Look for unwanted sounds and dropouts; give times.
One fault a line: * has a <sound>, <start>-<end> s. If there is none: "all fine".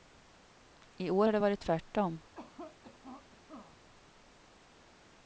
* has a cough, 2.3-3.8 s